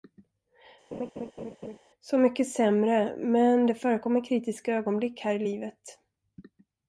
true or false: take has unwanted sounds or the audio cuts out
true